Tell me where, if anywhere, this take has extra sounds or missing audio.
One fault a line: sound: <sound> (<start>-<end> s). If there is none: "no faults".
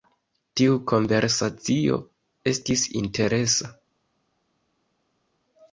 no faults